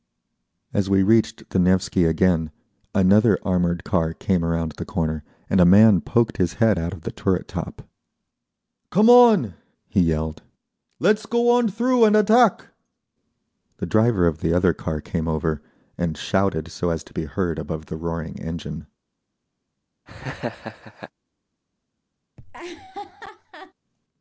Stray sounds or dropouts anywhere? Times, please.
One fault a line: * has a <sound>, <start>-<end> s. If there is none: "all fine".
* has a laugh, 20.1-21.1 s
* has a laugh, 22.4-23.7 s